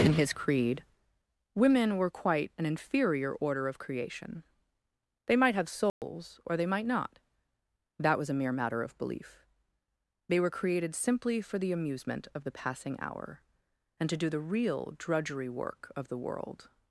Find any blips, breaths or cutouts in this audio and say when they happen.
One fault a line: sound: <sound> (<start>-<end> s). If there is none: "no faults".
sound: dropout (5.9-6.0 s)